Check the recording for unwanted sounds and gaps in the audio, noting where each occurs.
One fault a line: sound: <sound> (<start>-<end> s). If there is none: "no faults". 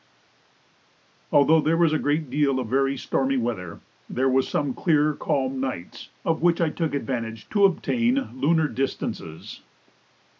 no faults